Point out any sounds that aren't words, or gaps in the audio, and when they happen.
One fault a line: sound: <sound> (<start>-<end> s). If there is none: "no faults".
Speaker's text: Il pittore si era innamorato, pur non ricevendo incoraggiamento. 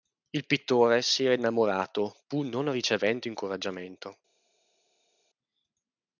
no faults